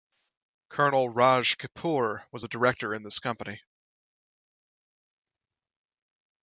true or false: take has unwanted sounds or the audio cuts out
false